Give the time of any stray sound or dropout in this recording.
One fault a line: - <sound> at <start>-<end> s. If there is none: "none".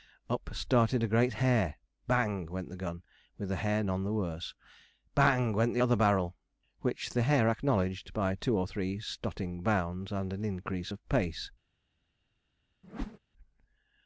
- whoosh at 12.8-13.2 s